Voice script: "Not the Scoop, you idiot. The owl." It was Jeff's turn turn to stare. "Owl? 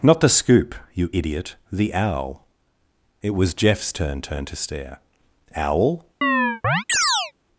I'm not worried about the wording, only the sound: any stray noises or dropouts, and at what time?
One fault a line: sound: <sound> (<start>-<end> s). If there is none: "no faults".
sound: chirp (6.2-7.3 s)